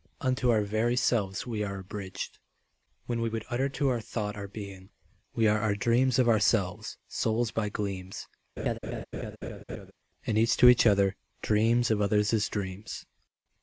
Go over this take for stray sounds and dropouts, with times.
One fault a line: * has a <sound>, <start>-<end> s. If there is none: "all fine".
* has a laugh, 8.6-9.9 s